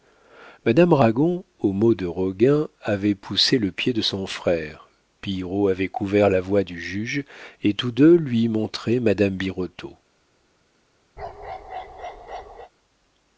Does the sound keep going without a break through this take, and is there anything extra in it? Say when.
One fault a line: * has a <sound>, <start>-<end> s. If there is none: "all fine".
* has a bark, 11.2-12.7 s